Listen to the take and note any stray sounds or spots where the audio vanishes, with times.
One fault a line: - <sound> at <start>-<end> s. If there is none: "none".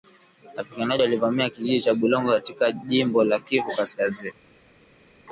none